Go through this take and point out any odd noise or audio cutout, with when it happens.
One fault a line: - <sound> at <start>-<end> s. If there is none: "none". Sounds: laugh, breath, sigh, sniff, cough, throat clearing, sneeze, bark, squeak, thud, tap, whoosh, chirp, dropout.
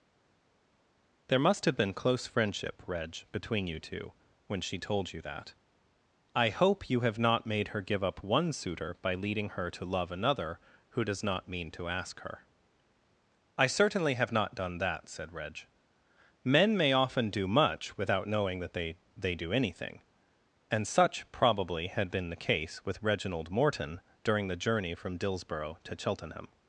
none